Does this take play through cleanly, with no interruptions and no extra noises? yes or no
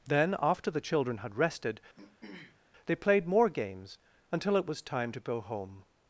no